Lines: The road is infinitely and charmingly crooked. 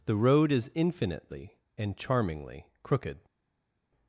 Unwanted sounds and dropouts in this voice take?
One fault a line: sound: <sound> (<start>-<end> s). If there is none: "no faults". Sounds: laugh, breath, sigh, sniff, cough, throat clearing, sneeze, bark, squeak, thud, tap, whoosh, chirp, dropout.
no faults